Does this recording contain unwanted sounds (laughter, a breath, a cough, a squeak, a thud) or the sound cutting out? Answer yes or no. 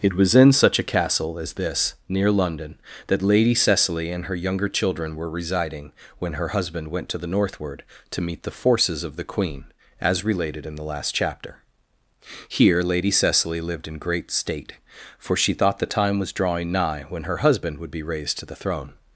no